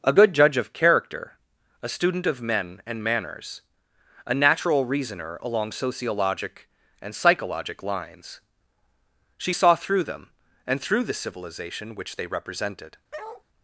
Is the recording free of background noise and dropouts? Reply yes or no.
no